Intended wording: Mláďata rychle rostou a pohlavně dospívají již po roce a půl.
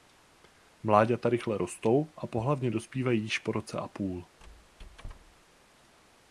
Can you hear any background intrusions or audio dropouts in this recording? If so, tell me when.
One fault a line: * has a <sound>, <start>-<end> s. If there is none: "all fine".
* has a squeak, 4.4-5.4 s